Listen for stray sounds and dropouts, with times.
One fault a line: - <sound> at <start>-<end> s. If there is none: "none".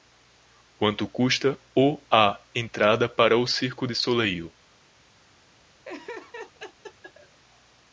- laugh at 5.8-7.4 s